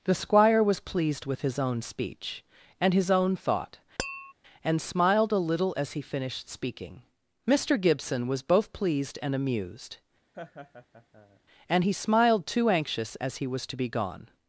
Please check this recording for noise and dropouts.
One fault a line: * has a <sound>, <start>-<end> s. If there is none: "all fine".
* has a tap, 4.0-4.3 s
* has a laugh, 10.3-11.4 s